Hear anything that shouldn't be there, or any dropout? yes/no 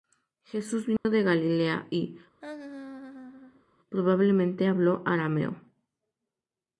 yes